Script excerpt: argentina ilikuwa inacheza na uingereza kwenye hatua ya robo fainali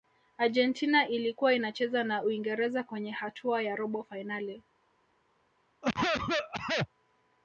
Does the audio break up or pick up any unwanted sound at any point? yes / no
yes